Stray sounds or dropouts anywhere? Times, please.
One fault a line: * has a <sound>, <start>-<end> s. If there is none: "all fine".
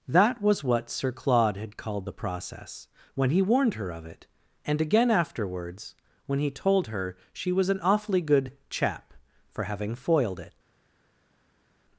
all fine